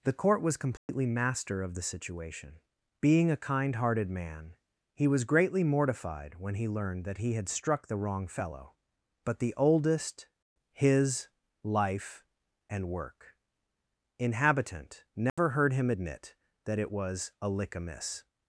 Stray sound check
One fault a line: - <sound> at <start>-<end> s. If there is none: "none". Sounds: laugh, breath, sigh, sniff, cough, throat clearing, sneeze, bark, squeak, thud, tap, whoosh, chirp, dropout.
- dropout at 0.8-0.9 s
- dropout at 15.3-15.4 s